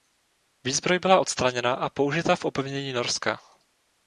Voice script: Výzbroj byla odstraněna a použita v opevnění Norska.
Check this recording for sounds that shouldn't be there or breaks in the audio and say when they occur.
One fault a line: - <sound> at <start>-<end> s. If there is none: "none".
none